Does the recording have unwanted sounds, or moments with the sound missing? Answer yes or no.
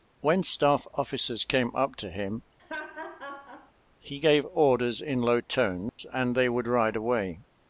yes